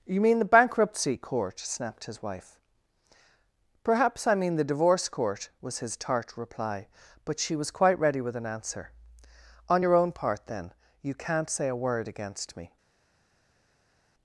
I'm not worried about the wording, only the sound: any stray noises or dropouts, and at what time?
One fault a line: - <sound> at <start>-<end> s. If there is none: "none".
none